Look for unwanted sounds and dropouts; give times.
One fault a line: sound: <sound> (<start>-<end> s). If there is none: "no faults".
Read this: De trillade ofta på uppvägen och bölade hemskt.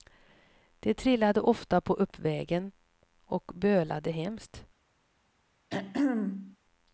sound: throat clearing (5.7-6.6 s)